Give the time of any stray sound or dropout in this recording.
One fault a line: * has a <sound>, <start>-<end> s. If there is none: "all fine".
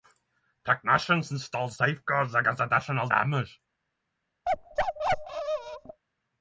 * has a bark, 4.5-6.0 s